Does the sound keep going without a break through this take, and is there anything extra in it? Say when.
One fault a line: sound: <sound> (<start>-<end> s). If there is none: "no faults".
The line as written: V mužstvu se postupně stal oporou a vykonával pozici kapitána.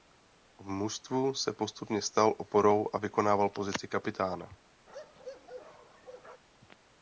sound: bark (4.9-6.4 s)